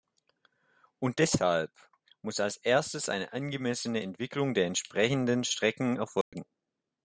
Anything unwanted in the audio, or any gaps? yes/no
yes